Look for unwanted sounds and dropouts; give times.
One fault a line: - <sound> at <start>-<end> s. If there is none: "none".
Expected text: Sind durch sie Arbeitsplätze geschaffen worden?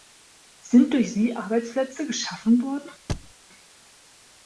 - thud at 3.1-3.3 s